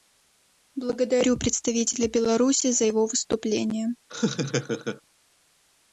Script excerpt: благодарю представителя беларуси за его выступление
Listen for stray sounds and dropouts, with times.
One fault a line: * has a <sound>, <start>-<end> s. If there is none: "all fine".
* has a laugh, 4.1-5.0 s